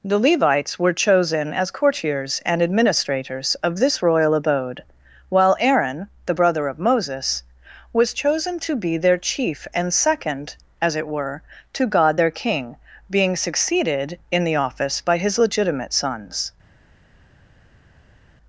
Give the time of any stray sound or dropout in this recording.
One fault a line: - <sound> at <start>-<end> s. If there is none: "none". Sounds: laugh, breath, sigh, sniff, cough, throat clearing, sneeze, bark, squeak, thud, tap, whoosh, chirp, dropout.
none